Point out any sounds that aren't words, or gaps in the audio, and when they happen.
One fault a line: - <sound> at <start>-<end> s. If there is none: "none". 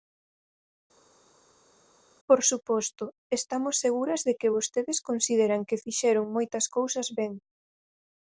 none